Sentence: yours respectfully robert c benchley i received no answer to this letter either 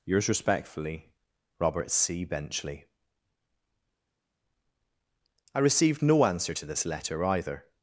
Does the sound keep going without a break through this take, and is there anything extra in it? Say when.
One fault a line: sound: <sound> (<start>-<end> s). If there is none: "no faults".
no faults